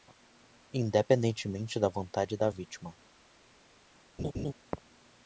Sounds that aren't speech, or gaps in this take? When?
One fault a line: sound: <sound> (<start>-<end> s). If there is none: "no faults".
sound: laugh (4.2-4.5 s)